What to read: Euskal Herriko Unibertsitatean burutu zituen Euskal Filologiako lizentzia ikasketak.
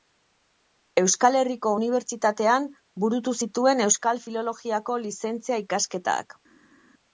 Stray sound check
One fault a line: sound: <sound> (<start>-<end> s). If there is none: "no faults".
no faults